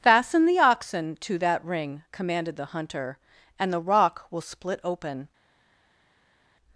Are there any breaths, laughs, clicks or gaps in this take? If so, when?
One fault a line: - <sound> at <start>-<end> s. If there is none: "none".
none